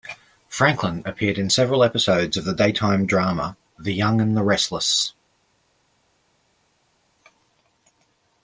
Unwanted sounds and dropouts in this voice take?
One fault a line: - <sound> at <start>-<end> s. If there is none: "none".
none